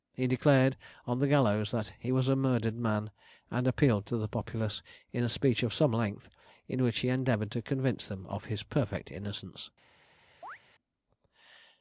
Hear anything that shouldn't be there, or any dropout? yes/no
yes